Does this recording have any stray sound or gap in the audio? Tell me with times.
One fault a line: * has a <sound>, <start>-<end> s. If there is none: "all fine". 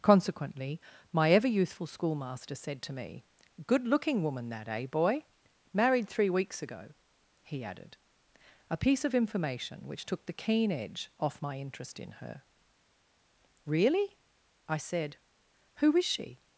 all fine